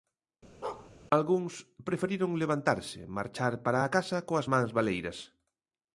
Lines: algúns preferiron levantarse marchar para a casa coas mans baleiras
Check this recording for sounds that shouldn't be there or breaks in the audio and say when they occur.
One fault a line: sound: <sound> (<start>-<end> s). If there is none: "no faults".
sound: bark (0.6-0.9 s)